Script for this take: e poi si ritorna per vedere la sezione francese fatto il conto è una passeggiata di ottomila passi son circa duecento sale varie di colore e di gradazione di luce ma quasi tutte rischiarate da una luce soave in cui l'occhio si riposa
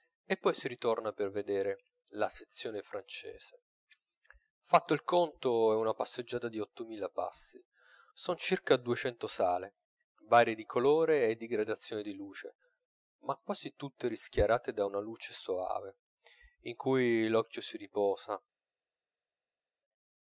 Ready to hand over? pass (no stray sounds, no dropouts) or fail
pass